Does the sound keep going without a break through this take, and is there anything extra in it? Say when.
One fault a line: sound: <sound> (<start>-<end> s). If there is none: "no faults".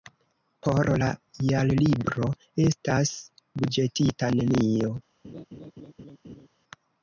sound: laugh (5.2-6.5 s)